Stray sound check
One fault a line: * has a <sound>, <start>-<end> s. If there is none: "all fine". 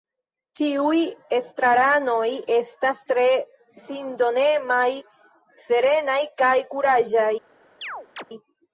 * has a chirp, 7.8-8.2 s